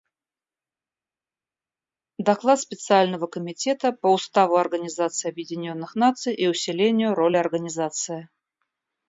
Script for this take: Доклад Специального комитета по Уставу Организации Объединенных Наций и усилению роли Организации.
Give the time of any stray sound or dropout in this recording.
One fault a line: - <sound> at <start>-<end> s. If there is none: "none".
none